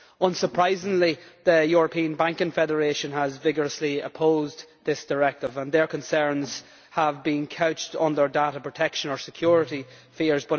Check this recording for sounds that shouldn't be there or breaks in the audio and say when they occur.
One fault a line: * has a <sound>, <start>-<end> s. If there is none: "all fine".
all fine